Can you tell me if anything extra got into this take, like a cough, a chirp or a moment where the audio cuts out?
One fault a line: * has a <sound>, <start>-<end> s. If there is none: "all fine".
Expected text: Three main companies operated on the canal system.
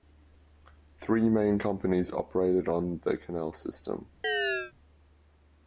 * has a chirp, 4.2-4.7 s